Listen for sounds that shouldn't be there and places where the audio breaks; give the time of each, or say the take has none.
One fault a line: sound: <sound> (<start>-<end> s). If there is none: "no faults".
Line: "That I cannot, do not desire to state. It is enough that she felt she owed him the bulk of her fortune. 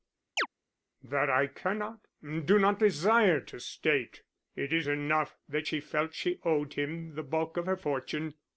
sound: chirp (0.4-0.5 s)